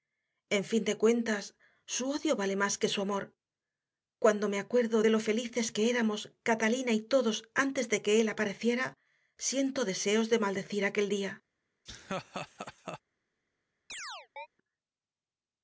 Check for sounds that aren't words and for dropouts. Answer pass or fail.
fail